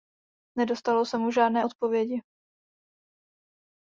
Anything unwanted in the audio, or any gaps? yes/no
no